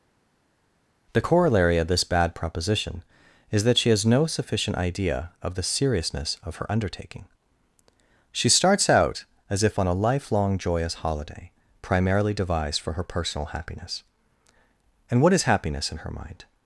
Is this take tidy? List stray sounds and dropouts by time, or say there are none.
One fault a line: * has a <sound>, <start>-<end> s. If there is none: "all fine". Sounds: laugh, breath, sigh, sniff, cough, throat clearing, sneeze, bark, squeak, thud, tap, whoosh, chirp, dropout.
all fine